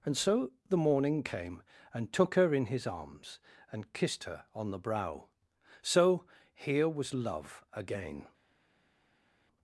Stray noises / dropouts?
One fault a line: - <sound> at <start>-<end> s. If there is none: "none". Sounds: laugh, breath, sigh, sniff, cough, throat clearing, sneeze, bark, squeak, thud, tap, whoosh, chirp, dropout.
none